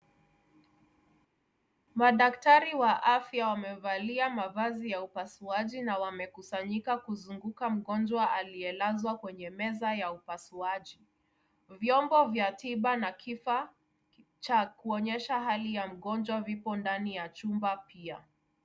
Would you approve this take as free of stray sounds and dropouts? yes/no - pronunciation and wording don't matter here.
yes